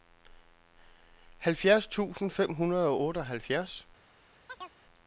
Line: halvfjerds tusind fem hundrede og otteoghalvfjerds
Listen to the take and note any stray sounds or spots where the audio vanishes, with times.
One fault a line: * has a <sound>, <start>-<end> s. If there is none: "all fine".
* has a chirp, 4.5-4.8 s